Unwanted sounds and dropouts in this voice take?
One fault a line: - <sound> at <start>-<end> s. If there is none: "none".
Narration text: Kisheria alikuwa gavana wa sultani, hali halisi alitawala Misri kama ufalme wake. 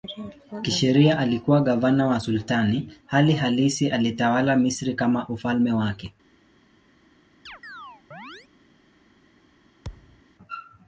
- chirp at 7.5-8.5 s
- thud at 9.8-10.2 s